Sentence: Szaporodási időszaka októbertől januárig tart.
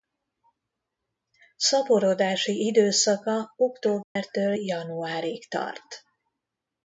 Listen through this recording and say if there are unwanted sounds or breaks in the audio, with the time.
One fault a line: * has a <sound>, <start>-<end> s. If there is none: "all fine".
* has a dropout, 4.0-4.2 s